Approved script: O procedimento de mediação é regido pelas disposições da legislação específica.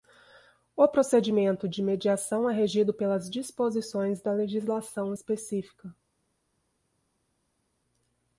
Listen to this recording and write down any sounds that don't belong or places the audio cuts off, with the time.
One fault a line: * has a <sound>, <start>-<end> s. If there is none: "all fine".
all fine